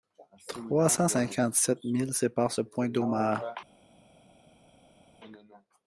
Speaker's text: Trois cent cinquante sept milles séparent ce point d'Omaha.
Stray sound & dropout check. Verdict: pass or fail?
pass